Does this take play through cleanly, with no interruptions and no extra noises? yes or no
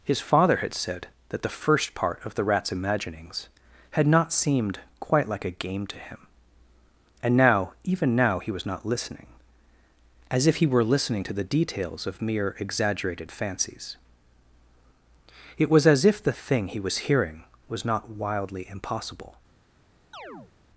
no